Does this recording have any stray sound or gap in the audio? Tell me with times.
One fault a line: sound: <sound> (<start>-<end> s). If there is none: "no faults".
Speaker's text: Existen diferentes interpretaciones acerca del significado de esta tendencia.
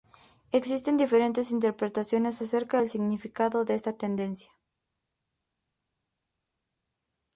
no faults